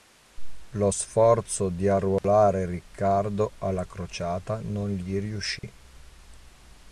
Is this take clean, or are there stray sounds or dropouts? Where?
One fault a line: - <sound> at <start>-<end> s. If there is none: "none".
- dropout at 2.2-2.2 s
- dropout at 5.6-5.6 s